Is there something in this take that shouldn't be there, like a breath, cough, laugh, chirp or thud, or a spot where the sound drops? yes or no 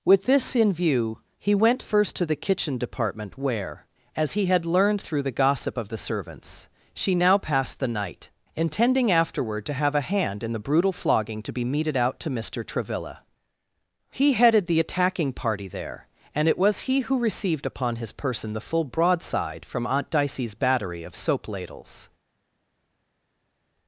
no